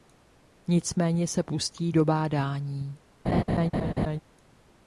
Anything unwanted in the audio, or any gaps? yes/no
yes